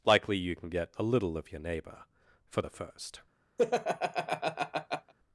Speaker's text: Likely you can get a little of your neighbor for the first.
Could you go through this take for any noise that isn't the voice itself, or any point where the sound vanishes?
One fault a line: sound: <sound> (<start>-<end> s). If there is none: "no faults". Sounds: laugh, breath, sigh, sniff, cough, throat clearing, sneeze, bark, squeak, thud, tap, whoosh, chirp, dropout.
sound: laugh (3.6-5.1 s)